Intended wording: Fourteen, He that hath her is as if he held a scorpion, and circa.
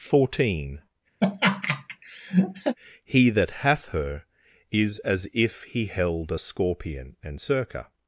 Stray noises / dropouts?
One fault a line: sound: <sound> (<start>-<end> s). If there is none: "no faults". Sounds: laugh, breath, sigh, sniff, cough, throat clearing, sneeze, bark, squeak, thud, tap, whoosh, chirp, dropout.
sound: laugh (1.2-2.8 s)